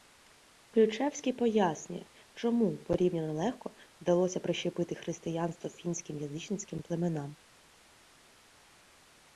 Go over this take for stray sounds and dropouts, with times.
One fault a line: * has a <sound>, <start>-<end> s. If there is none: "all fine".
all fine